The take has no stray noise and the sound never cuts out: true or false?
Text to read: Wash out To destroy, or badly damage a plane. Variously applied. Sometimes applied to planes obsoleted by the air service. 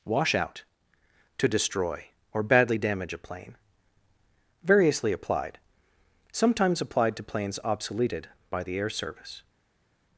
true